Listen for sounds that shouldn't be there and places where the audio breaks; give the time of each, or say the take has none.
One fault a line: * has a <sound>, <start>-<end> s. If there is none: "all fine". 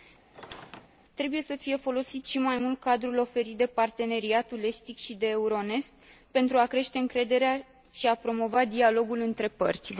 * has a squeak, 0.3-0.9 s